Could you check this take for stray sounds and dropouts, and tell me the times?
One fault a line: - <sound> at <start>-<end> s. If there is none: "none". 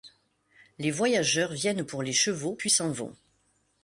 none